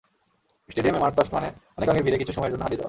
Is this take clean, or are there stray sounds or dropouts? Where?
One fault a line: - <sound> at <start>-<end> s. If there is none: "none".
none